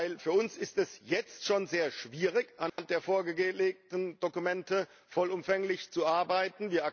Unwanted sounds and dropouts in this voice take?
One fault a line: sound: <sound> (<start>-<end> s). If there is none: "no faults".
sound: dropout (2.7-2.8 s)